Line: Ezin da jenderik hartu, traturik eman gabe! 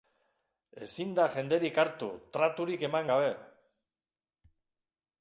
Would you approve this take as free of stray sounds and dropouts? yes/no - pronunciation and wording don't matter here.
yes